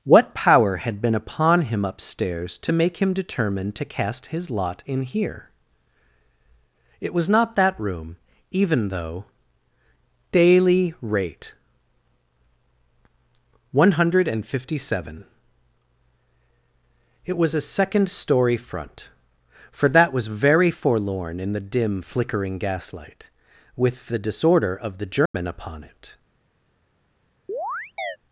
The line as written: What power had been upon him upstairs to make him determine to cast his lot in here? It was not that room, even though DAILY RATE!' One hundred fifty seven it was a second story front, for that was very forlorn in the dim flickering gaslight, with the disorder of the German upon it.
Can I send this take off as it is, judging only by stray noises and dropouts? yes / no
no